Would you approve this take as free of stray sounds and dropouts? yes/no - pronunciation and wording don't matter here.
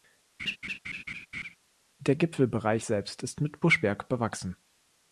no